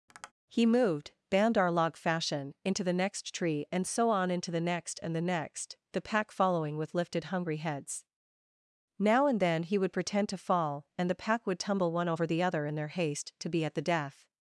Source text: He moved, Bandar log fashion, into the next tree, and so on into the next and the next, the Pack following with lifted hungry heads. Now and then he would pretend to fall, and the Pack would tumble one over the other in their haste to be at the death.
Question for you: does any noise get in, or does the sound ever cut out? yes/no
yes